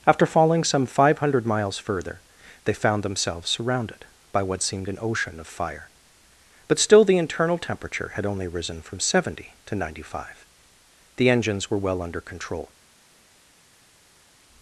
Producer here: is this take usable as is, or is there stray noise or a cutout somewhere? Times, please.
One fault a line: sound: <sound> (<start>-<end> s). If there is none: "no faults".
no faults